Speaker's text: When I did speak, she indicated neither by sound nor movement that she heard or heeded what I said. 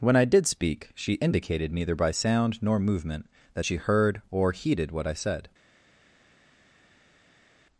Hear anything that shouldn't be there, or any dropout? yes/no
no